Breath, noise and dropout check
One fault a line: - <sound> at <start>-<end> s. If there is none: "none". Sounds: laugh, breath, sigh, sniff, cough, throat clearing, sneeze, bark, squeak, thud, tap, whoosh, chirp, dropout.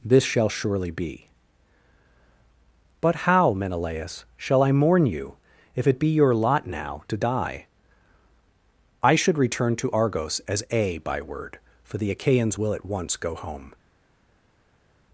none